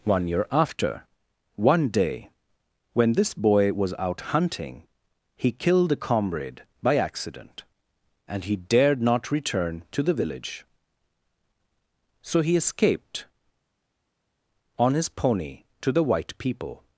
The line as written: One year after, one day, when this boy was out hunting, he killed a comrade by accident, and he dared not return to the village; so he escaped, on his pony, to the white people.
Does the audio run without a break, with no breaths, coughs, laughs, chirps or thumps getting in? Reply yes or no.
yes